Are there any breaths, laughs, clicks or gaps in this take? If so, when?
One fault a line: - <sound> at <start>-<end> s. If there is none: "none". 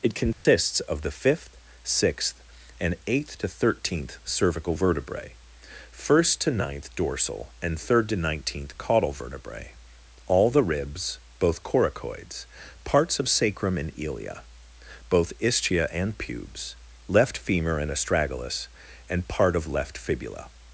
- dropout at 0.3-0.5 s